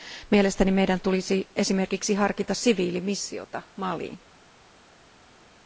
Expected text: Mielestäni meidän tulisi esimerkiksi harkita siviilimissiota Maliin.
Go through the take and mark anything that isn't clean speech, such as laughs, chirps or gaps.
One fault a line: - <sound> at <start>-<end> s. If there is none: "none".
none